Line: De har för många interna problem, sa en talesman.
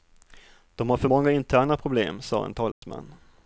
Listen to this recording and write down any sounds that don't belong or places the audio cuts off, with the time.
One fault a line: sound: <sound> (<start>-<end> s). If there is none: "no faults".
sound: dropout (2.7-2.8 s)